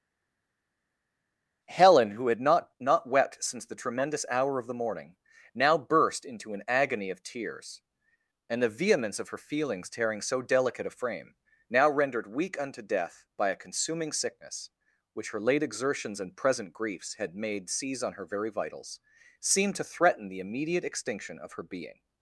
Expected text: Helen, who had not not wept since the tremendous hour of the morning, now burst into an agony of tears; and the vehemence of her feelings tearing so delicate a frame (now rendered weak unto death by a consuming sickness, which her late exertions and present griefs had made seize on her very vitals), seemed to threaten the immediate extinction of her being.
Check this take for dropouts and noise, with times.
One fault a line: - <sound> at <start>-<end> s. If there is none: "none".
none